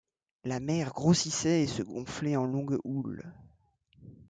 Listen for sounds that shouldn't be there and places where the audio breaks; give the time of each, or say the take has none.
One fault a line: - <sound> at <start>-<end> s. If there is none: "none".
none